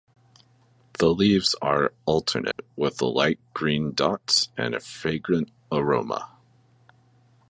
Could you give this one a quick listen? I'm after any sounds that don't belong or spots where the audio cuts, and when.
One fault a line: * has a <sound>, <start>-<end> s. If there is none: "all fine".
* has a dropout, 2.5-2.6 s